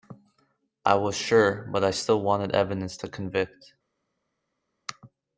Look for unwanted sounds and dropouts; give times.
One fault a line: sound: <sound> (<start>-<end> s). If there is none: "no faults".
no faults